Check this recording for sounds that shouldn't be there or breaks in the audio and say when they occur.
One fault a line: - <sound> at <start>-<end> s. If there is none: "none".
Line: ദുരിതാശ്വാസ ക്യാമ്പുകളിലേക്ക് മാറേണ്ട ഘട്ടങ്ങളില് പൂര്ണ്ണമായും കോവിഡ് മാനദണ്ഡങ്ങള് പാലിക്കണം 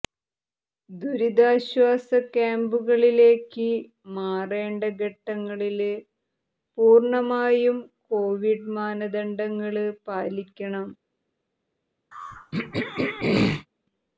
- throat clearing at 12.1-13.7 s